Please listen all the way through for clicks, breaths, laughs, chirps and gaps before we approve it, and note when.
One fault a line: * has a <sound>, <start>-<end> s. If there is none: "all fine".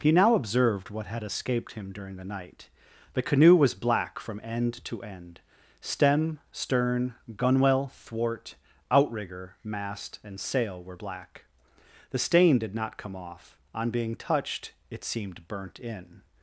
all fine